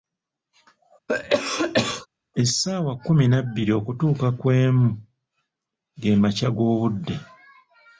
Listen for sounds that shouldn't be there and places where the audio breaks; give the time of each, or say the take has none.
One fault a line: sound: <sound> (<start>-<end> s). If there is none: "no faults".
sound: cough (1.1-2.1 s)